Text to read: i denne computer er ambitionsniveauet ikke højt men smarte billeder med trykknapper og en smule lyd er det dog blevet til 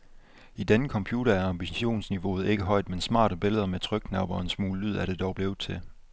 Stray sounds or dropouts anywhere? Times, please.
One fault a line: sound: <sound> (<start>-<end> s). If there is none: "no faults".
no faults